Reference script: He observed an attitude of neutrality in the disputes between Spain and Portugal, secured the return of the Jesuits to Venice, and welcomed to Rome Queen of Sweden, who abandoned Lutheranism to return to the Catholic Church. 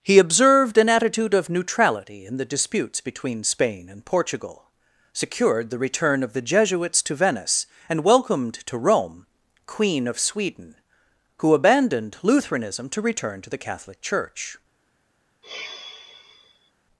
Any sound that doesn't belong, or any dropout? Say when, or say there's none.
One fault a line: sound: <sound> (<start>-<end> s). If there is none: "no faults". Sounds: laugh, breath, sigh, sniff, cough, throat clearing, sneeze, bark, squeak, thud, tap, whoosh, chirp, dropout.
sound: sigh (15.4-16.7 s)